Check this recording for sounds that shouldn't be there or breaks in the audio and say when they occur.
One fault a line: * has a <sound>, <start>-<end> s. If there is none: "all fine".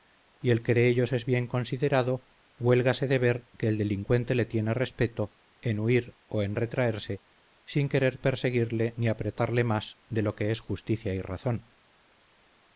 all fine